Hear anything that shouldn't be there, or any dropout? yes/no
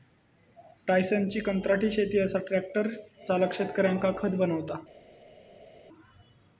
no